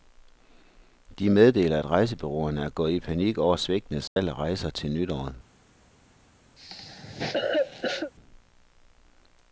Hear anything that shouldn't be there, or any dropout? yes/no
yes